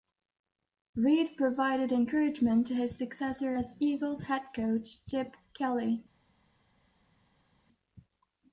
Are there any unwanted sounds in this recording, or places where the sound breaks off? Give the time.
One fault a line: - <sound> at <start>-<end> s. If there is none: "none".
none